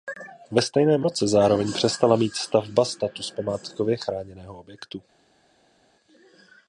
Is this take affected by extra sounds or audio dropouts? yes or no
no